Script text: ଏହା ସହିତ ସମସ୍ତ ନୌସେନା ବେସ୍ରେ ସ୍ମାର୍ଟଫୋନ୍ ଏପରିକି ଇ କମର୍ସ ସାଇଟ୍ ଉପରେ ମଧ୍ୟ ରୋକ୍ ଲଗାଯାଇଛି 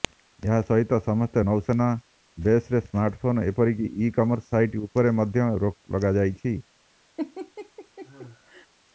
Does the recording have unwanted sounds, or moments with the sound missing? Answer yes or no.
yes